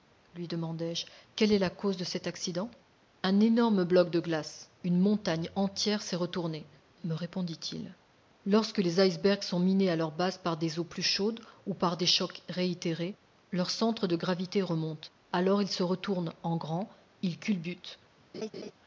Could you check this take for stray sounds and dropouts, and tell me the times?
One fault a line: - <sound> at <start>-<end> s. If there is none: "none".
- laugh at 18.3-18.7 s